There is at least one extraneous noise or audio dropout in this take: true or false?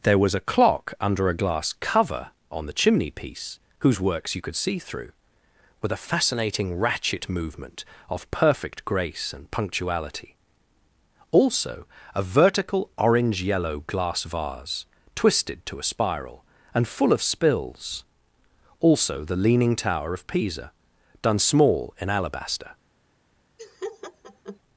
true